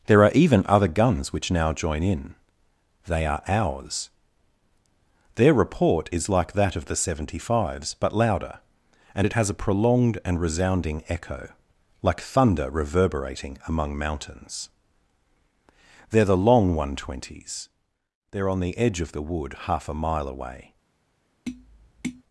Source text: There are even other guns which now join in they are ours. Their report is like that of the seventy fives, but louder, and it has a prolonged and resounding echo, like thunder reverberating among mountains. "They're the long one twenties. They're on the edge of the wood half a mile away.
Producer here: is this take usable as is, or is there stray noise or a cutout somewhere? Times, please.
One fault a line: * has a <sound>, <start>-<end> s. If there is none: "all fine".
* has a tap, 21.5-22.2 s